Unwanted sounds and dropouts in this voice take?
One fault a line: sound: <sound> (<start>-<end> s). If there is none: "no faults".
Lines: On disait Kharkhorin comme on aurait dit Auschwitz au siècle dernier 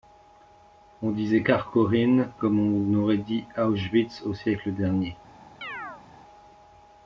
sound: chirp (5.6-6.0 s)